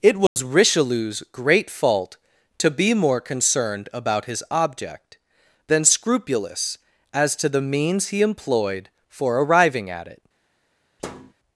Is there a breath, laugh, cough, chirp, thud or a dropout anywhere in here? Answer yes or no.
yes